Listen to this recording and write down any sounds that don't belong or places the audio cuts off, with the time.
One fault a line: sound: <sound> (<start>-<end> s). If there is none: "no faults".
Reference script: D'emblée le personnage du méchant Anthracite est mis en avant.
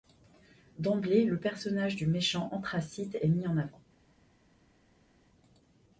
no faults